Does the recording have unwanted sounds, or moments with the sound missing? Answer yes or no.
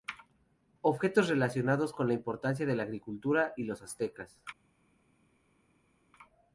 no